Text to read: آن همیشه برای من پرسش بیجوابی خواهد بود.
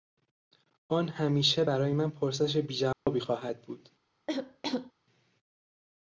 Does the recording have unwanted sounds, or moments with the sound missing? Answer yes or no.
yes